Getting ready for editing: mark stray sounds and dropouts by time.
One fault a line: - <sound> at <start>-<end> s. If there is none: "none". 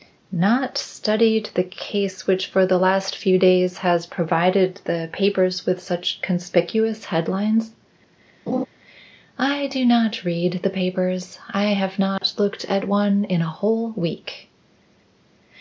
- laugh at 8.5-8.7 s
- dropout at 12.2-12.2 s